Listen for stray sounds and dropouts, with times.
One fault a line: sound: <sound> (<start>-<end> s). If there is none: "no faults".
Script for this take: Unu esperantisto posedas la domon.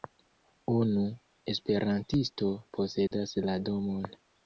sound: dropout (3.1-3.1 s)